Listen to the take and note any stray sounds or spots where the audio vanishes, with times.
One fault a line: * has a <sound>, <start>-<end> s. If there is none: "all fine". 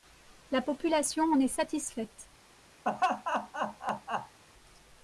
* has a laugh, 2.8-4.4 s